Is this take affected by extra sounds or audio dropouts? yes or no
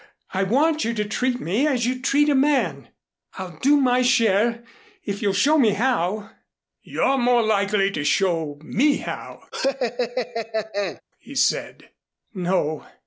yes